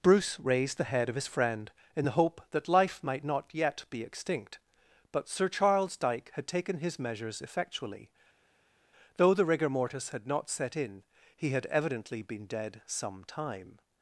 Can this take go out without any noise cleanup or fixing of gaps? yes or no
yes